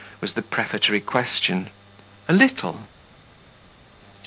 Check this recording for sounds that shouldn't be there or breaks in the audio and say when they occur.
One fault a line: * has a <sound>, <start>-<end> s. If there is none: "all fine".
all fine